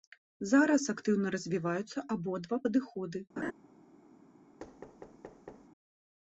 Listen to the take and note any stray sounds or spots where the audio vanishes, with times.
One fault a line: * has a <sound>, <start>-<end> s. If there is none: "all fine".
* has a laugh, 3.4-3.5 s
* has a thud, 4.6-5.7 s